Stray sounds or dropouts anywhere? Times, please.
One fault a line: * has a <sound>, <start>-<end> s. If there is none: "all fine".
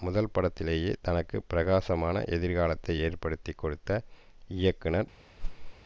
* has a whoosh, 5.4-5.7 s